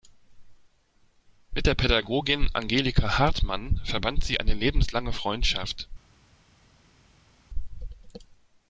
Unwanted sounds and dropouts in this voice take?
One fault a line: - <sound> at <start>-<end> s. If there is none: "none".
none